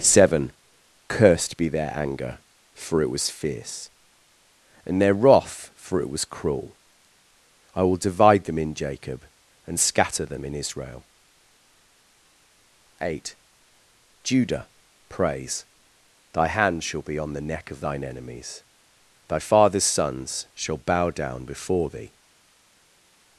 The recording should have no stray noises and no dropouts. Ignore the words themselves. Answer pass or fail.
pass